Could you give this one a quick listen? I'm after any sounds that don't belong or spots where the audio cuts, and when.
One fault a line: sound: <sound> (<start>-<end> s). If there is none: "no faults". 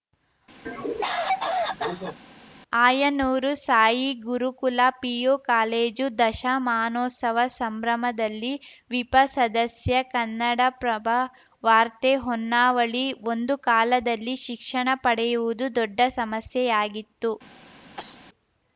sound: cough (0.7-2.2 s)
sound: cough (18.0-18.3 s)